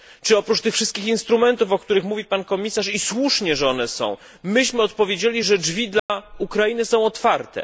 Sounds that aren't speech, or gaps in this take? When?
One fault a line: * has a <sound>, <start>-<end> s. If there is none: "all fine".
* has a dropout, 6.0-6.1 s